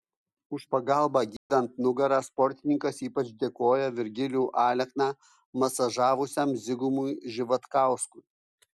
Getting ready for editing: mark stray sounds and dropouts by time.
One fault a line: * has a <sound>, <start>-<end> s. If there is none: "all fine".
* has a dropout, 1.4-1.5 s